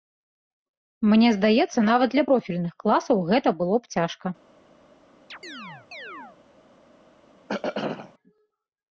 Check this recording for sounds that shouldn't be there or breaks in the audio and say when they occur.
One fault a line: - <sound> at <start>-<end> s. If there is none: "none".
- chirp at 5.3-6.4 s
- throat clearing at 7.5-8.1 s